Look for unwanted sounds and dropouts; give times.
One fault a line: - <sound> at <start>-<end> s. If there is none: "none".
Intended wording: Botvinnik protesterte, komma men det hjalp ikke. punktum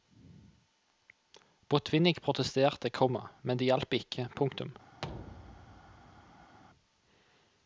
- thud at 5.0-6.6 s